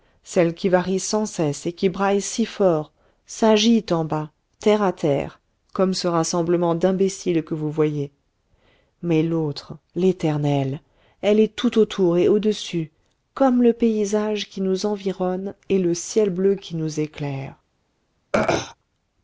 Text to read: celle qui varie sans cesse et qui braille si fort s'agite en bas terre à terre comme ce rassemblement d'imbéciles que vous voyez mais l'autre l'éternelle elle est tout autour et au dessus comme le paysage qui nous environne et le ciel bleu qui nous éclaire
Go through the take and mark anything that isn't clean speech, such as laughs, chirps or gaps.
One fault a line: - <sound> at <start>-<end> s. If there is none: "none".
- throat clearing at 18.3-18.8 s